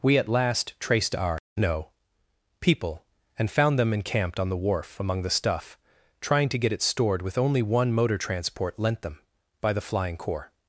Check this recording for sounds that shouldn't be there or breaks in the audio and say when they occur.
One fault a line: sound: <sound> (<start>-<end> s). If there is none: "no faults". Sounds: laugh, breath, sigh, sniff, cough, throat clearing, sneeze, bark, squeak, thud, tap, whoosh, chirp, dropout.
no faults